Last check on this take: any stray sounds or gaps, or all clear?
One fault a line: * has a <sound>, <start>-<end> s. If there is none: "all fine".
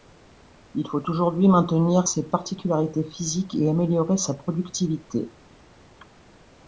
all fine